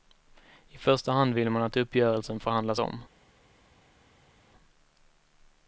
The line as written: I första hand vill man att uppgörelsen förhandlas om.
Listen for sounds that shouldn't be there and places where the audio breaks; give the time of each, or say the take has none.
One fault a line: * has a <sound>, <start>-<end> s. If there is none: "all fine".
all fine